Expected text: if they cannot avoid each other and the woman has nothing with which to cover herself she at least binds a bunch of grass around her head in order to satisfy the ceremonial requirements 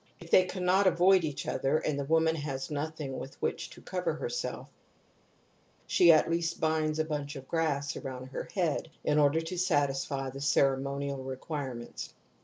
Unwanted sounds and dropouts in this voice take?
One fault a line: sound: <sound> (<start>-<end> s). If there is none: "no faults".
no faults